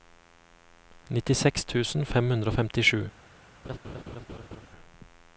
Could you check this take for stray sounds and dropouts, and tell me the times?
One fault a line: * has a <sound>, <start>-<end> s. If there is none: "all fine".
* has a laugh, 3.6-4.7 s